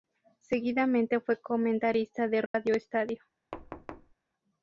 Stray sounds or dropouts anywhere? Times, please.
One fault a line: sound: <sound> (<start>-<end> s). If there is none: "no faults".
sound: dropout (2.5-2.5 s)
sound: thud (3.5-4.1 s)